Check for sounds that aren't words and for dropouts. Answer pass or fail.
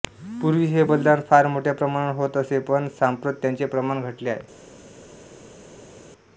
pass